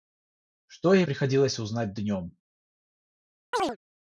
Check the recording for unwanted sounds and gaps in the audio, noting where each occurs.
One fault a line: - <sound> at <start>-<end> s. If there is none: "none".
- chirp at 3.5-3.8 s